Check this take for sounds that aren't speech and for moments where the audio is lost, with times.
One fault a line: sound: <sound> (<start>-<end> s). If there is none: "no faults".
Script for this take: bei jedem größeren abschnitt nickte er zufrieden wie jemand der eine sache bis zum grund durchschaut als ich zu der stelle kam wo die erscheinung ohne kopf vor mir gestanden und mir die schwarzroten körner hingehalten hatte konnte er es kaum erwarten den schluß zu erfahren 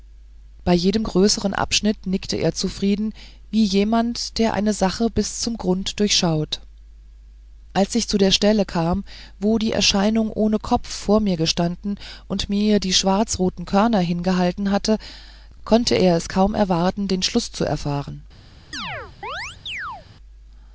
sound: chirp (18.7-20.1 s)